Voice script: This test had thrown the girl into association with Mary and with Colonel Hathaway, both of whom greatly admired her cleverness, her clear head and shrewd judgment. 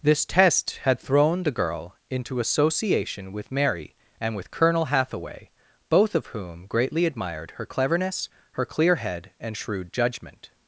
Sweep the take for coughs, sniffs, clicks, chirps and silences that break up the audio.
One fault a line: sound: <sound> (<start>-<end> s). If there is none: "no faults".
no faults